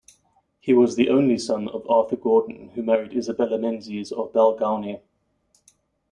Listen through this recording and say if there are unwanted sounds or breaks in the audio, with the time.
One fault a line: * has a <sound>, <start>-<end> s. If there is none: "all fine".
all fine